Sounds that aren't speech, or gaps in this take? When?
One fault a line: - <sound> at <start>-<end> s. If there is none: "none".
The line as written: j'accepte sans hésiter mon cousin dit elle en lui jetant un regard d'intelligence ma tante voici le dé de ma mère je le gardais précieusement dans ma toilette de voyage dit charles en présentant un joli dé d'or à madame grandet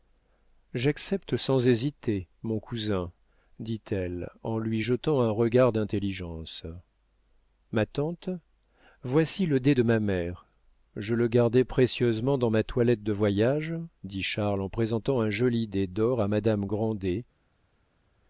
none